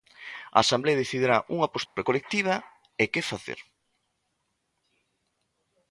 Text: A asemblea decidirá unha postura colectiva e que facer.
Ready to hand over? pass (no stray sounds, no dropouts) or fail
fail